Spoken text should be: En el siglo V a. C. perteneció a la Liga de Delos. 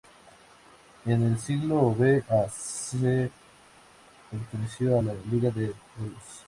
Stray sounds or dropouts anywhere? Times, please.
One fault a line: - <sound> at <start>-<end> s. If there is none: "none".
none